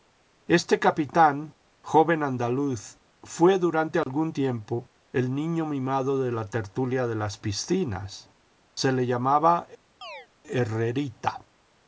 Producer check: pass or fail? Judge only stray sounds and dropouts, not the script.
fail